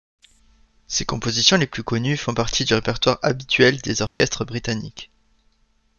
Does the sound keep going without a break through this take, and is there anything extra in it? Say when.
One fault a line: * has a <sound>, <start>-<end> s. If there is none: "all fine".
* has a dropout, 4.1-4.2 s